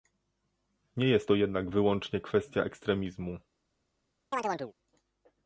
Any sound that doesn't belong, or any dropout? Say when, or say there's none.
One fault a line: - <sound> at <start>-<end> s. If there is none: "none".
- chirp at 4.3-4.7 s